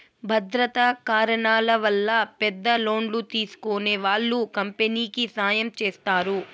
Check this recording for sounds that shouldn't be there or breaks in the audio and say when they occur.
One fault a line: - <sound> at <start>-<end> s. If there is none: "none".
none